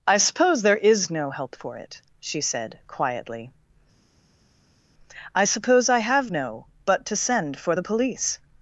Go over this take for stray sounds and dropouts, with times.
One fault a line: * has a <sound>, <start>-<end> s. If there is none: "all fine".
all fine